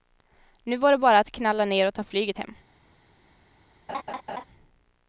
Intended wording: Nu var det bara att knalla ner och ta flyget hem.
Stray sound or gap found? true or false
true